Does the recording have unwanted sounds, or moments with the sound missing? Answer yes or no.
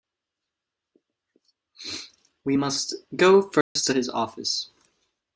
yes